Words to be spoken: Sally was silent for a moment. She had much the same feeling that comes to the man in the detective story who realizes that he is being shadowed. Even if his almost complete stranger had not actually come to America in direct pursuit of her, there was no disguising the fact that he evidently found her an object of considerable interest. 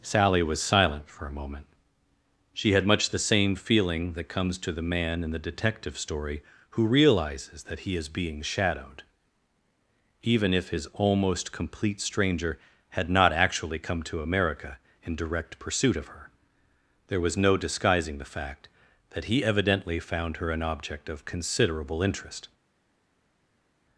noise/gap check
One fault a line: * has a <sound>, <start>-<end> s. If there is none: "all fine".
all fine